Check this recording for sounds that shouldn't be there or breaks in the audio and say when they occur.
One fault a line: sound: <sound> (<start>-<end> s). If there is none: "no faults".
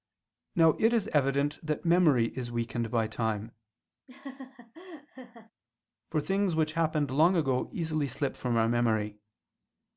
sound: laugh (4.1-5.5 s)